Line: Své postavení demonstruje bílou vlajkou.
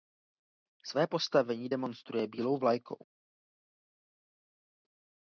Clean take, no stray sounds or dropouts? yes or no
yes